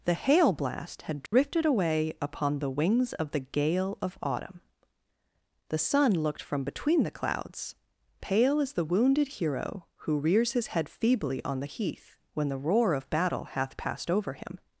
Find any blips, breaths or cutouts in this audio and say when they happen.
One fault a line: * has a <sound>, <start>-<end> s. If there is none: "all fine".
* has a dropout, 1.3-1.3 s